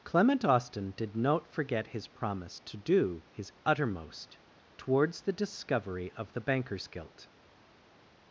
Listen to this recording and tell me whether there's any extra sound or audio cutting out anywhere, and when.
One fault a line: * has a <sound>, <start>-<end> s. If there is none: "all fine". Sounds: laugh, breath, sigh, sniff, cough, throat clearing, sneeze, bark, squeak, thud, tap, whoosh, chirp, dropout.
all fine